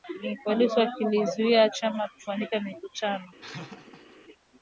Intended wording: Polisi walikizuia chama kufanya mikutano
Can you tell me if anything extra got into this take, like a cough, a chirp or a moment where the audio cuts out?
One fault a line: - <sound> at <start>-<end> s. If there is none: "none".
- laugh at 3.4-4.2 s